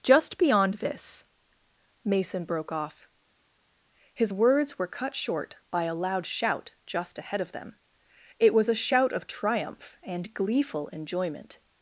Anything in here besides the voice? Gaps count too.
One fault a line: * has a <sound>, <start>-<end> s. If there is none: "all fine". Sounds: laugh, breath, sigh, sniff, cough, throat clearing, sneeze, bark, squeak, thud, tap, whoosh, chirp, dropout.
all fine